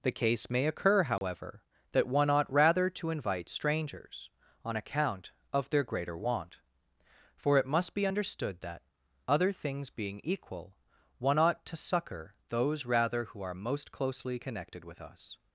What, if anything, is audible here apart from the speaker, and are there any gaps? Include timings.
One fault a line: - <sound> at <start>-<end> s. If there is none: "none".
- dropout at 1.2-1.2 s